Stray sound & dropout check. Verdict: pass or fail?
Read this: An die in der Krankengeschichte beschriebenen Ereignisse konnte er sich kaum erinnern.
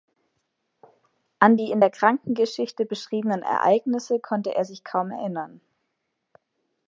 pass